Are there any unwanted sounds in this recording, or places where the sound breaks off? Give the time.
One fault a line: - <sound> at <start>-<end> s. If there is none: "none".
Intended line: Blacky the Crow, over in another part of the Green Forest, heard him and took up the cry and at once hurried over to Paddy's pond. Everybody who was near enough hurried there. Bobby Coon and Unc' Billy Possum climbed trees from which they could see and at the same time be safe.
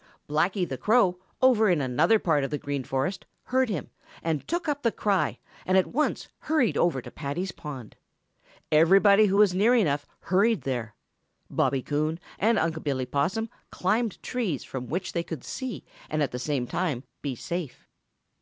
none